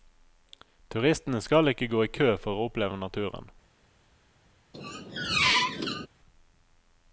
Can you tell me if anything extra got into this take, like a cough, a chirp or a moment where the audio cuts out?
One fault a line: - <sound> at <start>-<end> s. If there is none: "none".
- squeak at 4.7-6.1 s